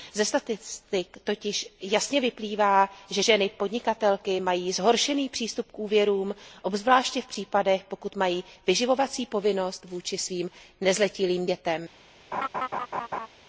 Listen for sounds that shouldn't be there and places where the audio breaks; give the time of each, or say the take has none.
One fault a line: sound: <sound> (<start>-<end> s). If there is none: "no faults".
sound: laugh (12.3-13.3 s)